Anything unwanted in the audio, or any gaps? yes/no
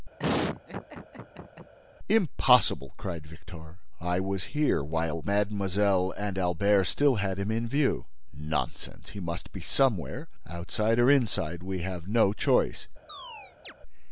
yes